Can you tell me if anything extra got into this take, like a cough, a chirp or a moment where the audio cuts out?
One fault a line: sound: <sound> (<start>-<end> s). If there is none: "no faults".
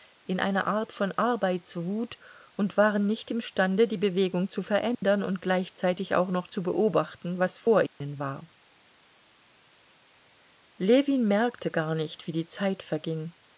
sound: dropout (4.9-5.0 s)
sound: dropout (7.9-8.0 s)